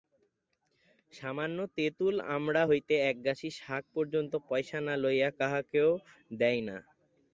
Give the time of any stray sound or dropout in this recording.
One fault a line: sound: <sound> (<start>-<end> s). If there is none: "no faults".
no faults